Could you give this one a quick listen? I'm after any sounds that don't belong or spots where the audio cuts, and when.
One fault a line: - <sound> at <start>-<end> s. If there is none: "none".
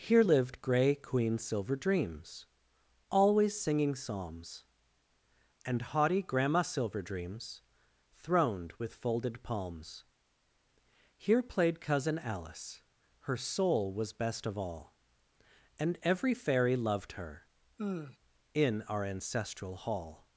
- sigh at 17.8-18.2 s